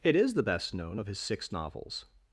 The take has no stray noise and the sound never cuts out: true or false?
true